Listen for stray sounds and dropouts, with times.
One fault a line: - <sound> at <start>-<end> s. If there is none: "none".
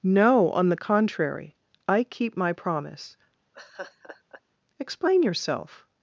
- laugh at 3.5-4.4 s